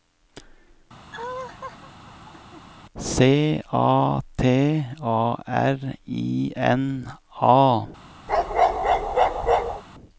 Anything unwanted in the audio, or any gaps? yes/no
yes